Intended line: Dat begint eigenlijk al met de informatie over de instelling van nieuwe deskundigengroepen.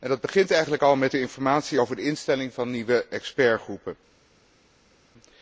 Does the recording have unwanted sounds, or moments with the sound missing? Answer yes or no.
no